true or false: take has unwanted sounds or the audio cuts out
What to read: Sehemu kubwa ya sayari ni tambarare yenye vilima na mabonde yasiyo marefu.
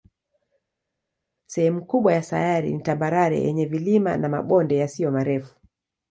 false